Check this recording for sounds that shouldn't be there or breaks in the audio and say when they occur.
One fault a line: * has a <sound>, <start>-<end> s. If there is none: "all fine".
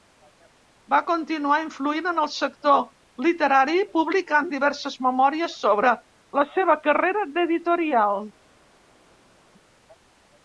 all fine